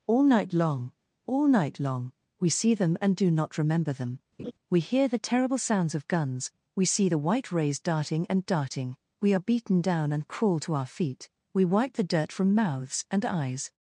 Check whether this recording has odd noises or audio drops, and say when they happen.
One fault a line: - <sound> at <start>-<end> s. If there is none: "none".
- laugh at 4.4-4.5 s